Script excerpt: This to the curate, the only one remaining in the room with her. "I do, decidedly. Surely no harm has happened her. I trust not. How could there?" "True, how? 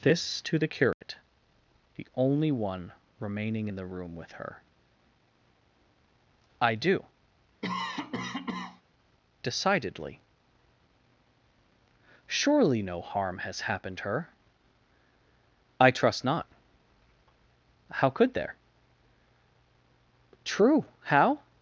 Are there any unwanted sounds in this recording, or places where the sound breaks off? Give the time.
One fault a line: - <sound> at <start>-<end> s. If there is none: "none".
- dropout at 0.9-1.0 s
- cough at 7.6-8.8 s